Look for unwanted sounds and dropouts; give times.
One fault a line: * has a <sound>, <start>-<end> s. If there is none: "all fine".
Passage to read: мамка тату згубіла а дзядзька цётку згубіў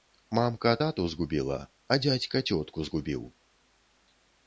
all fine